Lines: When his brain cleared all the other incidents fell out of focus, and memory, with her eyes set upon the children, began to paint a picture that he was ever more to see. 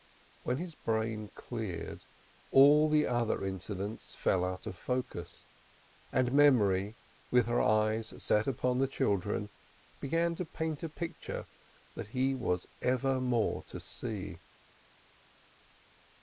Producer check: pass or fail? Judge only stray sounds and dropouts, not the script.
pass